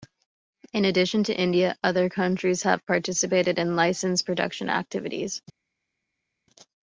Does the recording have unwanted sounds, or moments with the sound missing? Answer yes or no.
no